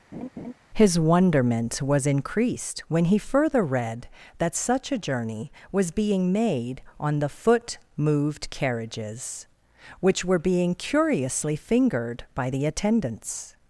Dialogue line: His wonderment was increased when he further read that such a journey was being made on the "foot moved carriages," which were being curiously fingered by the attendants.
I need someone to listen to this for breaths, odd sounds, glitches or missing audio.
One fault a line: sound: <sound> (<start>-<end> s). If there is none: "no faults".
sound: laugh (0.1-0.5 s)